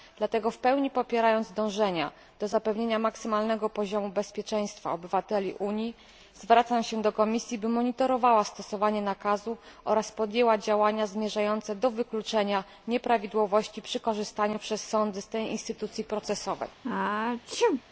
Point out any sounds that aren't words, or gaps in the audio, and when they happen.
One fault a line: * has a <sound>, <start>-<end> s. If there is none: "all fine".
* has a sneeze, 16.8-17.8 s